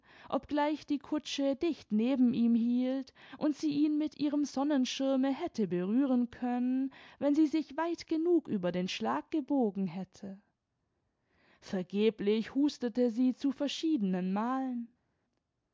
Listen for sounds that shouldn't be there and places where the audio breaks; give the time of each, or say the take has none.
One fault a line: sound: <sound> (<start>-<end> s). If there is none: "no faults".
no faults